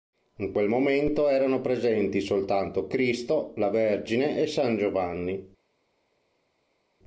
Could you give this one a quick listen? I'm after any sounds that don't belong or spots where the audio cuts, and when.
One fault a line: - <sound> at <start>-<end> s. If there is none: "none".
none